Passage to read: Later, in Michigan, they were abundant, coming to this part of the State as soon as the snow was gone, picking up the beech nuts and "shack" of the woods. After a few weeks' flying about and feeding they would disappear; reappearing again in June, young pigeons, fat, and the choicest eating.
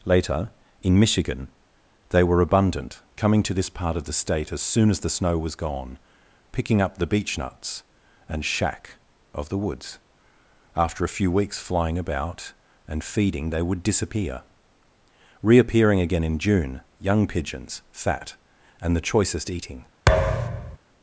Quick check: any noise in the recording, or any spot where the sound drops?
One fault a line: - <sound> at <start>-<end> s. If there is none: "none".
- thud at 20.1-20.8 s